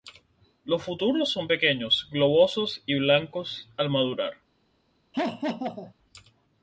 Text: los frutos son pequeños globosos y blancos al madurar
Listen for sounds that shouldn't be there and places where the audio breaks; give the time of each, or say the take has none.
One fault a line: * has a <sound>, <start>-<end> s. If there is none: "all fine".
* has a laugh, 5.1-5.9 s